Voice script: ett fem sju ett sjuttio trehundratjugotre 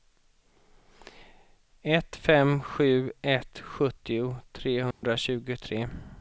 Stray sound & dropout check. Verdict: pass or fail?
fail